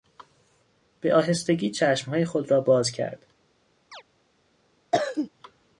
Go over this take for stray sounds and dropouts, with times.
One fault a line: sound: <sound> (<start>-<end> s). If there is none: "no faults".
sound: chirp (3.9-4.0 s)
sound: cough (4.9-5.3 s)